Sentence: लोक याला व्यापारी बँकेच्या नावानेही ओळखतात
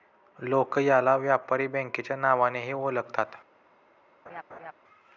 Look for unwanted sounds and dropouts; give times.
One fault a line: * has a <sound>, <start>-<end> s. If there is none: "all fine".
* has a laugh, 4.3-4.7 s